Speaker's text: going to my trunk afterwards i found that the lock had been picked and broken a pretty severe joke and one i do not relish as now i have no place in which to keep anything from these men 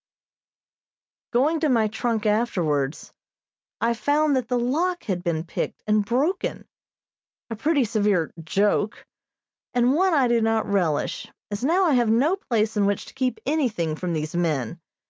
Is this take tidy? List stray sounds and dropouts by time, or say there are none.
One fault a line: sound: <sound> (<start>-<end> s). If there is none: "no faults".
no faults